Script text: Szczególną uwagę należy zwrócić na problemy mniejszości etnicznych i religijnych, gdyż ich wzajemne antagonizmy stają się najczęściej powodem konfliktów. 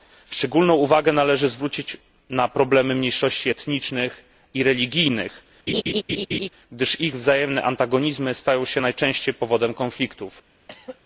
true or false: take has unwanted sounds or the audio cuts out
true